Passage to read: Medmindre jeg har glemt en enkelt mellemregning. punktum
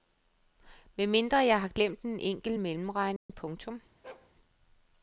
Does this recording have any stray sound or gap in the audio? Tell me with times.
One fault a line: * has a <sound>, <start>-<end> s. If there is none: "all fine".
* has a dropout, 3.2-3.3 s
* has a bark, 4.0-4.3 s